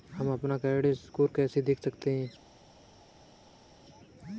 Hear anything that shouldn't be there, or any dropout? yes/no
no